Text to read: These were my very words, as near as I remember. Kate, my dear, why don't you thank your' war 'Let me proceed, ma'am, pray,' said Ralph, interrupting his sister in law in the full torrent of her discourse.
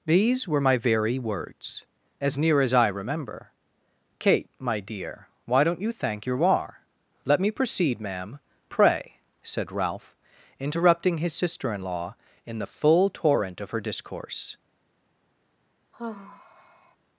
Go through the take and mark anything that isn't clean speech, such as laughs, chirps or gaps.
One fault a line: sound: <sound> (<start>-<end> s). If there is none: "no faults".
sound: sigh (15.9-17.0 s)